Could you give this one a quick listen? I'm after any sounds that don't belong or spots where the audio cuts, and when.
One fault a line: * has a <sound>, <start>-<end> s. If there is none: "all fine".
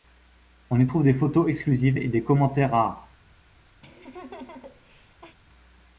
* has a laugh, 3.8-5.4 s